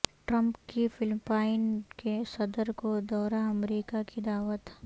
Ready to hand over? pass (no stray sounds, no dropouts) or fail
pass